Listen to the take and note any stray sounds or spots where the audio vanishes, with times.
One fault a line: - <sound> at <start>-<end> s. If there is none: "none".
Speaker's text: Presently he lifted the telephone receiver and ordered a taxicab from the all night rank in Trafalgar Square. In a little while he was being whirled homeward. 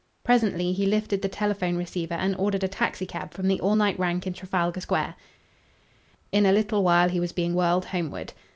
none